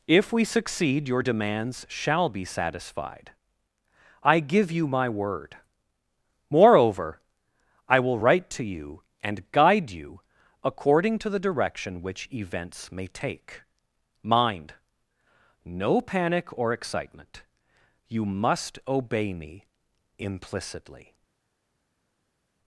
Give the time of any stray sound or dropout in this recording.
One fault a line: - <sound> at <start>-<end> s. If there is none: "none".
none